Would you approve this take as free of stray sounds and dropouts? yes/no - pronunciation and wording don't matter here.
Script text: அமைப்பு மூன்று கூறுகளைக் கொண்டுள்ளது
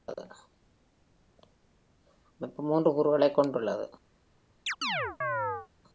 no